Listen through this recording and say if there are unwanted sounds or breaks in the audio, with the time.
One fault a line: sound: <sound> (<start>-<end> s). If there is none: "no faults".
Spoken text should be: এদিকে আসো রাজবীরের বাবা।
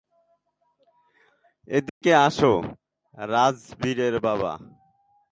sound: dropout (1.9-2.0 s)